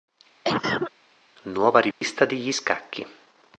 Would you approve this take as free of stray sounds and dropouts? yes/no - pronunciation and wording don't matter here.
no